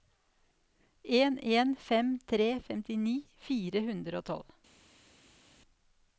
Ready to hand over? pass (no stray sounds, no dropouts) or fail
pass